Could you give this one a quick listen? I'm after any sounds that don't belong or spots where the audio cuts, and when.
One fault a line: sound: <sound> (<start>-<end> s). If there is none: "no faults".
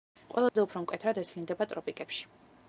sound: dropout (0.5-0.6 s)